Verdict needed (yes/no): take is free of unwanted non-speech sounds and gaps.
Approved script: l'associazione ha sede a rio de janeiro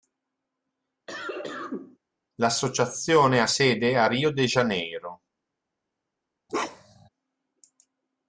no